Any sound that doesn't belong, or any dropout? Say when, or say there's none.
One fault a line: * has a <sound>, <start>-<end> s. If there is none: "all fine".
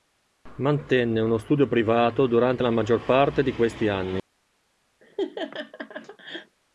* has a laugh, 5.0-6.6 s